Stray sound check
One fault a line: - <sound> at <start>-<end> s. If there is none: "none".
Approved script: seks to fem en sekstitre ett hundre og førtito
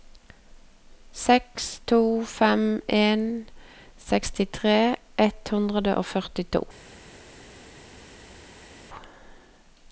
none